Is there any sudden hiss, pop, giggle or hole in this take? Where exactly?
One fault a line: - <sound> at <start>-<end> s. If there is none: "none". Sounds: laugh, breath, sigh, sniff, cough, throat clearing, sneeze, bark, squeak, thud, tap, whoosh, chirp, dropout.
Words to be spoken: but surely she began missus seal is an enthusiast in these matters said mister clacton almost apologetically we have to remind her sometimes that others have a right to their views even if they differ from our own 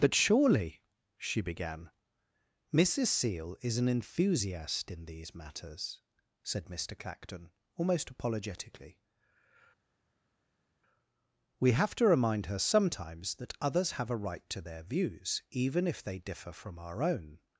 none